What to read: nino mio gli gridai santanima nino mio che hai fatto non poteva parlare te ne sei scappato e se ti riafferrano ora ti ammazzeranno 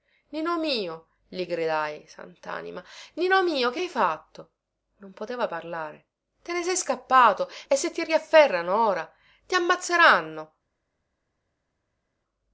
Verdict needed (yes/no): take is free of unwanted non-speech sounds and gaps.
yes